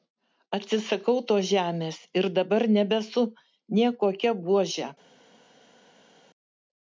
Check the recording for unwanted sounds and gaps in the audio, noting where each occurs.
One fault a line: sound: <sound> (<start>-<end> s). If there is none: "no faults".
no faults